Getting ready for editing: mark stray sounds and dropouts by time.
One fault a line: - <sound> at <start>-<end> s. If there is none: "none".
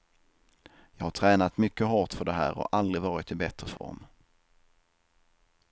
- dropout at 3.8-3.8 s